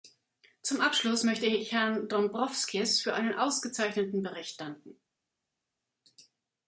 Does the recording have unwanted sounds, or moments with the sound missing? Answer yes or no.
no